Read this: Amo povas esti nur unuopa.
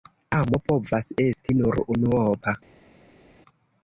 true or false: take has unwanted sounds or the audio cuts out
false